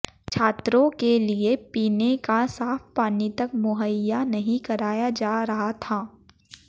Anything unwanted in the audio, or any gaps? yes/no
no